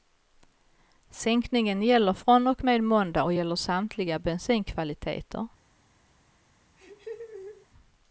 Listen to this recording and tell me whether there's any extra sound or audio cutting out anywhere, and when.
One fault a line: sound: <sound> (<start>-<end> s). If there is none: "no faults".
sound: laugh (6.8-7.7 s)